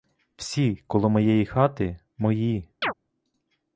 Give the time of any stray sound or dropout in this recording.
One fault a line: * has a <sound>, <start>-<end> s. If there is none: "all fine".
* has a chirp, 2.8-2.9 s